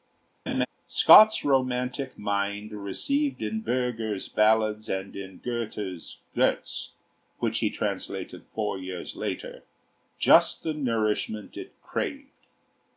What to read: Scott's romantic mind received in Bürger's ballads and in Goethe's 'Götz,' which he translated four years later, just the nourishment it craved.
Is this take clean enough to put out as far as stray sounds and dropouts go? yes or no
no